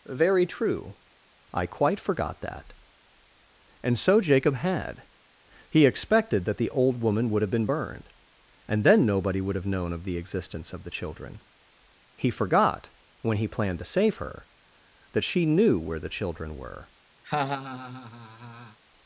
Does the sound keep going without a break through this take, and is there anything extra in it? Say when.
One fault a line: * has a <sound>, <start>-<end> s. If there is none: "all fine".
* has a laugh, 17.2-18.8 s